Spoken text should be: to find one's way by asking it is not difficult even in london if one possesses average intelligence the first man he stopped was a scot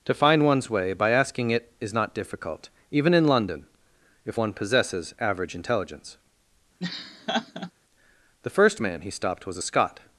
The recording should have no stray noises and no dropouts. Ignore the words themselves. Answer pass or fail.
fail